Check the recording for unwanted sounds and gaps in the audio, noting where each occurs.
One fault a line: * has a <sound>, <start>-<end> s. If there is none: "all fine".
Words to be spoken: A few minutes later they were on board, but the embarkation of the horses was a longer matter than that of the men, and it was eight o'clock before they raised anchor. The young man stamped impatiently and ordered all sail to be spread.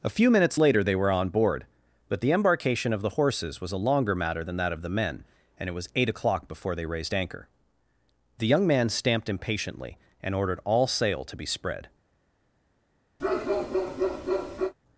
* has a bark, 13.2-14.7 s